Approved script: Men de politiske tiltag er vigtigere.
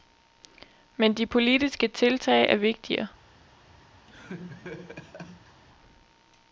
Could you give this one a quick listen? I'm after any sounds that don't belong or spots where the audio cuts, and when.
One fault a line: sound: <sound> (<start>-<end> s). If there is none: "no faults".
sound: laugh (4.1-5.6 s)